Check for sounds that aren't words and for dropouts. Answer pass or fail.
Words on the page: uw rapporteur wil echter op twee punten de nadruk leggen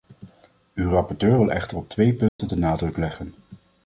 fail